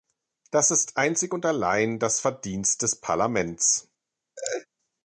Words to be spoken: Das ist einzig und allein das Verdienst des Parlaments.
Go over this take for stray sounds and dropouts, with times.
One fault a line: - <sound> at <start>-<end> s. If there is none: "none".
- laugh at 4.4-4.7 s